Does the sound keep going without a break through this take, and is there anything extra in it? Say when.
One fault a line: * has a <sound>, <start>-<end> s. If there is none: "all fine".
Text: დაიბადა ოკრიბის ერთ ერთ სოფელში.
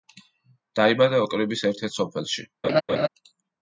* has a laugh, 2.6-3.1 s